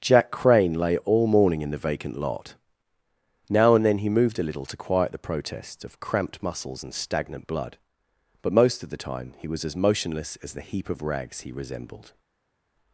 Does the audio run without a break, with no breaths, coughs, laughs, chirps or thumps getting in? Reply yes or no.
yes